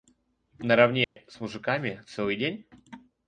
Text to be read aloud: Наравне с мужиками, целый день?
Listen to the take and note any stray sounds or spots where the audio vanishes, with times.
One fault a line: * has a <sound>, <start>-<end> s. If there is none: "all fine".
* has a dropout, 1.0-1.2 s